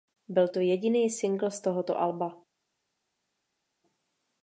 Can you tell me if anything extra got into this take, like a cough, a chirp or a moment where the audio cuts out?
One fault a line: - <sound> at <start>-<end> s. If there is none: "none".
none